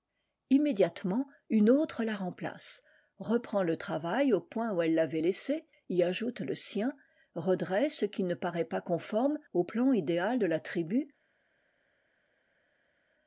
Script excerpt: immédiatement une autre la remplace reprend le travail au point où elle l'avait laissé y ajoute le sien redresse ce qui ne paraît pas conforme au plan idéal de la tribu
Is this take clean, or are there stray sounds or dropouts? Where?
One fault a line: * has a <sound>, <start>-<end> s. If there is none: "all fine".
all fine